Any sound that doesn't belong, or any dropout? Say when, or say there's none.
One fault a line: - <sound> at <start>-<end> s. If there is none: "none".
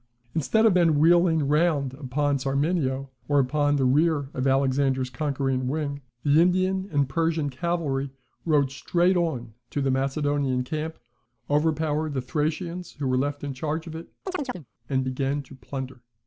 - chirp at 14.3-14.7 s